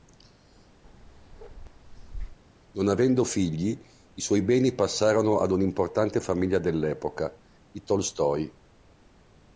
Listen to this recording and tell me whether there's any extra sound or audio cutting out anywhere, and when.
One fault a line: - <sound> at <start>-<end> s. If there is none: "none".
- bark at 0.8-2.4 s